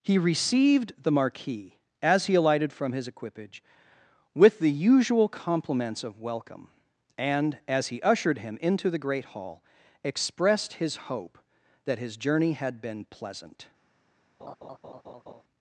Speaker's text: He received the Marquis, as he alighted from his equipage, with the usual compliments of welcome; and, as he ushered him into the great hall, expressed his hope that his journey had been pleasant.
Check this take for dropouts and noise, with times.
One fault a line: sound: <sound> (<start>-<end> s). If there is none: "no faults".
sound: laugh (14.4-15.4 s)